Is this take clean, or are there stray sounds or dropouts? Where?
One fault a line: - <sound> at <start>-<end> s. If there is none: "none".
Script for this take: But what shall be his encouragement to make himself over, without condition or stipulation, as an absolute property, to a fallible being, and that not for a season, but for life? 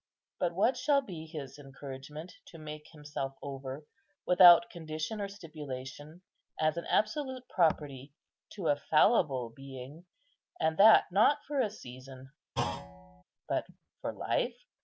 - thud at 12.6-13.2 s